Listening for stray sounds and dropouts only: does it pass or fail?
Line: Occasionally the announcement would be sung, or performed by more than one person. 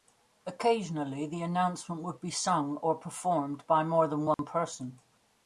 fail